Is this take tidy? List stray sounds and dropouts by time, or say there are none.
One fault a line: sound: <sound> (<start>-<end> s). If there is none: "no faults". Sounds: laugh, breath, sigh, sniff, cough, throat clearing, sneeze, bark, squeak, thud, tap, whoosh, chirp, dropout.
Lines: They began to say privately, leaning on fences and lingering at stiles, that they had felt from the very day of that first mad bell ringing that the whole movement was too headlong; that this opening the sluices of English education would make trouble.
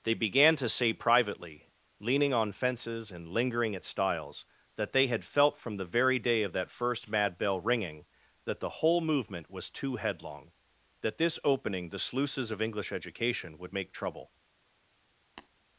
sound: tap (15.4-15.5 s)